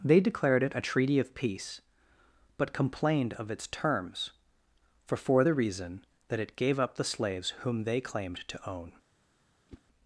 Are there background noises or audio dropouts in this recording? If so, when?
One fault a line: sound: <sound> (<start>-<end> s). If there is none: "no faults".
sound: whoosh (9.7-9.8 s)